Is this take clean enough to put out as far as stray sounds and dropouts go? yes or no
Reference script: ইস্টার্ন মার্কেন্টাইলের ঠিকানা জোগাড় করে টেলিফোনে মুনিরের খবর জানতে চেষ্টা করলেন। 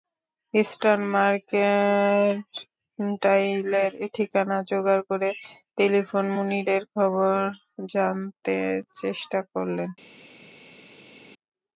yes